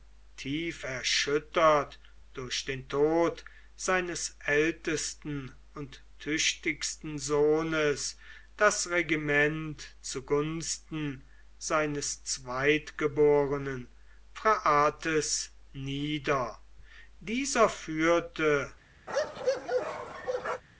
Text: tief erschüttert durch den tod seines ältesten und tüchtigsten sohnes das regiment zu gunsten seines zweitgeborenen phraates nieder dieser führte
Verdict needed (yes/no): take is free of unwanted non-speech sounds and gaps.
no